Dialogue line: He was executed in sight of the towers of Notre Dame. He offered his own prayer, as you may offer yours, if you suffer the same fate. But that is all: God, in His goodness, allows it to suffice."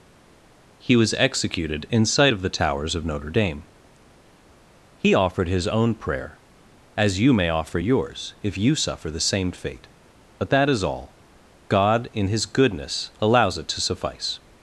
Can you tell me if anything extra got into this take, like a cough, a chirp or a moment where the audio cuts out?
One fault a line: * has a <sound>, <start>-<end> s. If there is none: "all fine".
all fine